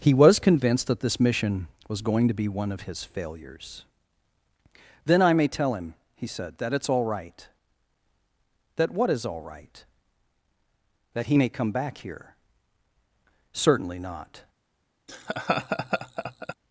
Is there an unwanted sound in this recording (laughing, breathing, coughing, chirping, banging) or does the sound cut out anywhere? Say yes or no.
yes